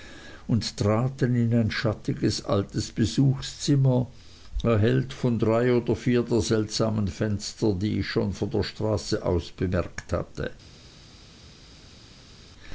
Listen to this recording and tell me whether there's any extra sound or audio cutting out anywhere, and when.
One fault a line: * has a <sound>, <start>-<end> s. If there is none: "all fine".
all fine